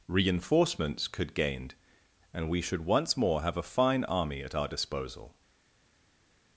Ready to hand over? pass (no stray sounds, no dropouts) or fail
pass